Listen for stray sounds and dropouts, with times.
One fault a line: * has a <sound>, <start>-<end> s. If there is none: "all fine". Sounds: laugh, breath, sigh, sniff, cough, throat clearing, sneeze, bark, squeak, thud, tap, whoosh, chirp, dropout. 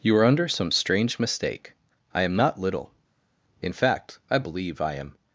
all fine